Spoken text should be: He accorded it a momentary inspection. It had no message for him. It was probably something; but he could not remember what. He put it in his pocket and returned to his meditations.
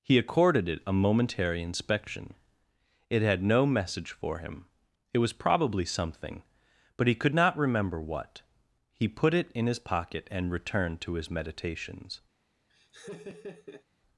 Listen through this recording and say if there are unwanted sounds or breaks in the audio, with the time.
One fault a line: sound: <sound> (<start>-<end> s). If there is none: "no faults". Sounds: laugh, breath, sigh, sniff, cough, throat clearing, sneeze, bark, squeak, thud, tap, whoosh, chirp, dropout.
sound: laugh (12.7-13.8 s)